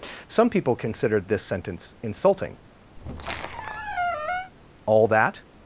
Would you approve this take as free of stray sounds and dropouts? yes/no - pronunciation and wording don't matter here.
no